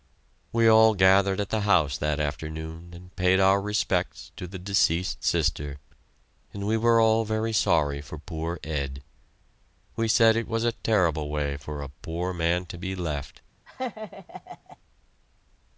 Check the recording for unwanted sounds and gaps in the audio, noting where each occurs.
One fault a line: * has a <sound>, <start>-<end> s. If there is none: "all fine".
* has a laugh, 13.7-14.8 s